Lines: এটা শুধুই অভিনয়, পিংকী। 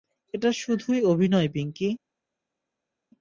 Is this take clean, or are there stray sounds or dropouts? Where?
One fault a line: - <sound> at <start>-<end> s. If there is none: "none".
none